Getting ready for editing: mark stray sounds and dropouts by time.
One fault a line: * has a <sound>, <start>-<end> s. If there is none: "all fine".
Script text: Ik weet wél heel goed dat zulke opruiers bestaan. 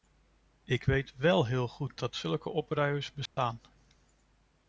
* has a dropout, 3.3-3.4 s